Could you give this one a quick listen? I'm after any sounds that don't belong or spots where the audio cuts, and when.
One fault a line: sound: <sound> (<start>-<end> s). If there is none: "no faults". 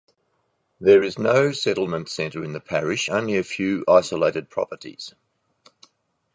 no faults